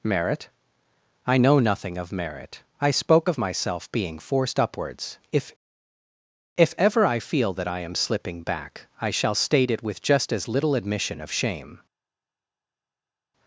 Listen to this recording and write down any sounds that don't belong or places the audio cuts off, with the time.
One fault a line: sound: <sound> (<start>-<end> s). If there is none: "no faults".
no faults